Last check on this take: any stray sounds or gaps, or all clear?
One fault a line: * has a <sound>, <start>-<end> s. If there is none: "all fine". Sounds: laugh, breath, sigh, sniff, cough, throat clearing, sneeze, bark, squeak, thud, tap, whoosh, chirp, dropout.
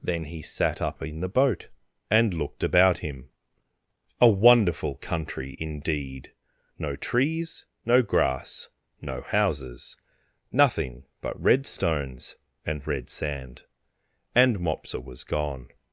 all fine